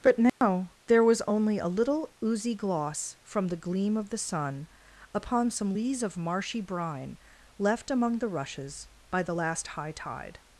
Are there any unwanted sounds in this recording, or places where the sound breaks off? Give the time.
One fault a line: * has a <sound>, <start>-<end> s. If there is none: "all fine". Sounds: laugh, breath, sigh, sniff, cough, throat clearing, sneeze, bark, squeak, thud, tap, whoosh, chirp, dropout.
* has a dropout, 0.3-0.4 s